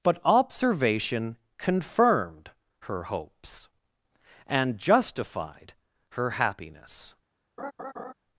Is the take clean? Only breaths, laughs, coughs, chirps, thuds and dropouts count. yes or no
no